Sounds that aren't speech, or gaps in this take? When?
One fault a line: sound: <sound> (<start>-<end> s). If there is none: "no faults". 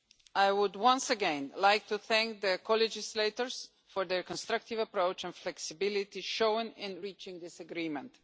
no faults